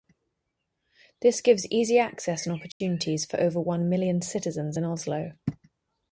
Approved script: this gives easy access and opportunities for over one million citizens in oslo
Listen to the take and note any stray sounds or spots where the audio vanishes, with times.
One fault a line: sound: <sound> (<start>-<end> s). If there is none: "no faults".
sound: dropout (2.7-2.8 s)